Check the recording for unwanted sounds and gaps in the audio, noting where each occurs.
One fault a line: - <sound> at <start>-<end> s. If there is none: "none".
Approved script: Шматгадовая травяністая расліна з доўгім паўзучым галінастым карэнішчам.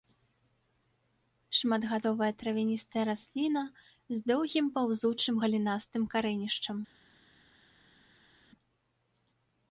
none